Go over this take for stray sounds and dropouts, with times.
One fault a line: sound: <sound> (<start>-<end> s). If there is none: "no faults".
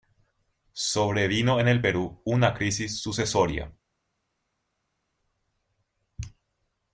no faults